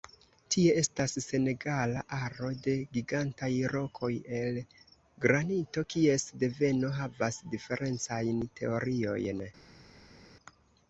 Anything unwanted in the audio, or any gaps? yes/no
no